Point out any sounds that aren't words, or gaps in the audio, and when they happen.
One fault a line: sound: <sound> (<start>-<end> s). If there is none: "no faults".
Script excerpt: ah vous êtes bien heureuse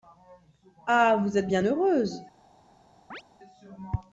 sound: chirp (3.1-3.2 s)